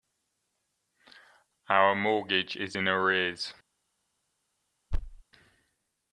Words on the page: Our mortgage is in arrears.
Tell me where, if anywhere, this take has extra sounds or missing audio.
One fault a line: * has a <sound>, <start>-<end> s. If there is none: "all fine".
* has a thud, 4.9-5.2 s